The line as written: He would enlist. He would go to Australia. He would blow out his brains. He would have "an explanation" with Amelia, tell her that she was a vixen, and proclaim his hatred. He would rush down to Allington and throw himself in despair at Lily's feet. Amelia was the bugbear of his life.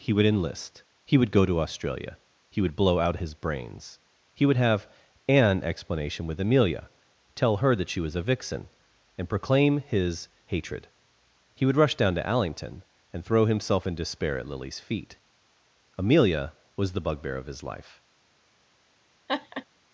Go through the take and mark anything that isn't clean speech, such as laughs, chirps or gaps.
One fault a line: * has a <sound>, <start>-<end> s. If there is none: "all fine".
* has a laugh, 19.3-19.7 s